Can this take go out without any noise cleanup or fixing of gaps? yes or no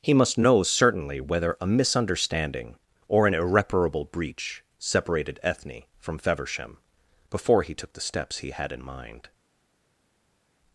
yes